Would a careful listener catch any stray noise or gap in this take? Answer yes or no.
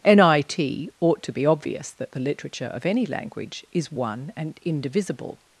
no